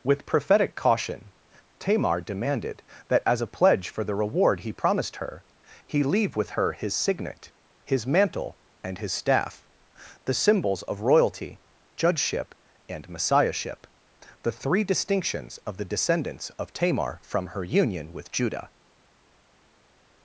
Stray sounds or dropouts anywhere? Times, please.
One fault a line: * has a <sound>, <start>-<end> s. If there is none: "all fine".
all fine